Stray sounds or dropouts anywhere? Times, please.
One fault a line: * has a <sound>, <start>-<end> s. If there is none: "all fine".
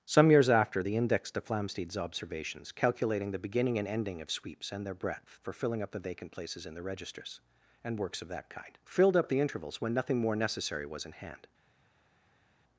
all fine